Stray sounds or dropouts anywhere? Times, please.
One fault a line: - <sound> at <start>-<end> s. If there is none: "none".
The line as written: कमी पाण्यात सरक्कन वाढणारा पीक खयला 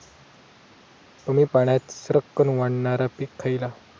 none